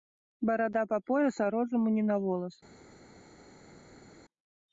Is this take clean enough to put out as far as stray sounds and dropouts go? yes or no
yes